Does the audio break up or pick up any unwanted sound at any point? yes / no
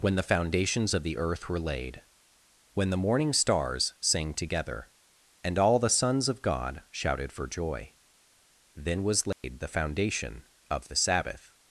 yes